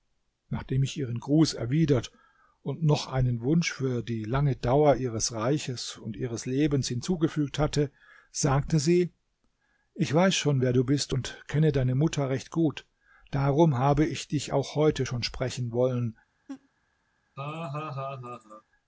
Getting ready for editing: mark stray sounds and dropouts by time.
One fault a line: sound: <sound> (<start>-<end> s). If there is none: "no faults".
sound: laugh (16.5-16.7 s)
sound: laugh (17.4-18.6 s)